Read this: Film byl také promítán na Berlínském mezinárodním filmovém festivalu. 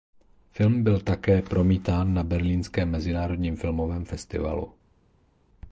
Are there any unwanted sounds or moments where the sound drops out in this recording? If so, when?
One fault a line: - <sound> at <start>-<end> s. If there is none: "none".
none